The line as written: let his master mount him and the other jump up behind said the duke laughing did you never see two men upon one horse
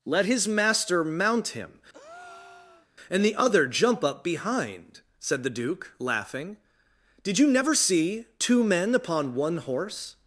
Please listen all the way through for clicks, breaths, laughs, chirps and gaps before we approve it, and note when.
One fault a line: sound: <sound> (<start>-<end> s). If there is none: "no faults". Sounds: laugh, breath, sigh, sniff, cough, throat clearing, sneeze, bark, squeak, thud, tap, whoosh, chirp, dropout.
sound: breath (1.9-2.9 s)